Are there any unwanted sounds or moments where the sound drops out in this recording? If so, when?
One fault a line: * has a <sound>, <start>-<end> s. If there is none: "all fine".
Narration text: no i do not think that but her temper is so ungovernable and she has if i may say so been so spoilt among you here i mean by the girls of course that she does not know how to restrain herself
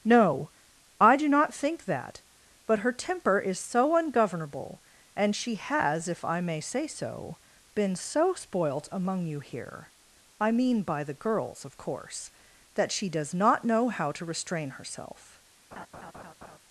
* has a laugh, 15.7-16.6 s